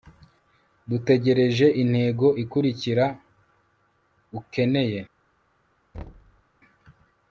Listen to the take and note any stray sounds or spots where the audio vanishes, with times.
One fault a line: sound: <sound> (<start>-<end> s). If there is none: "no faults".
sound: thud (5.9-6.4 s)